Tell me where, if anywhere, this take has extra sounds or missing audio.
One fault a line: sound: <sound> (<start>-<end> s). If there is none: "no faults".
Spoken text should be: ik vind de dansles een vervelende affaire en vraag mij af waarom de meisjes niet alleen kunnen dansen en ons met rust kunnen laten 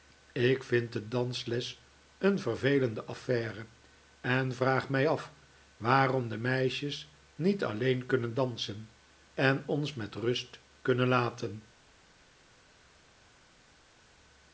no faults